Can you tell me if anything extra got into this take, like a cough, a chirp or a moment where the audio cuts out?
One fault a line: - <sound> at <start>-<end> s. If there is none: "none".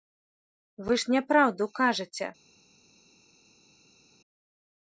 none